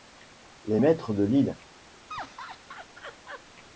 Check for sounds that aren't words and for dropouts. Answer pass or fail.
fail